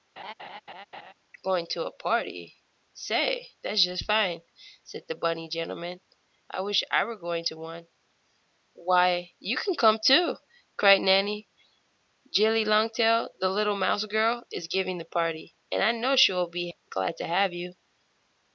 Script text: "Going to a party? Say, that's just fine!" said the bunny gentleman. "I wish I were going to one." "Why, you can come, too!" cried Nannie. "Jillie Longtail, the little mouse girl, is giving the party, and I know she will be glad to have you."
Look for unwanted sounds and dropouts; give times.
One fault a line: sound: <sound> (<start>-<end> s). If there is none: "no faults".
sound: laugh (0.2-1.1 s)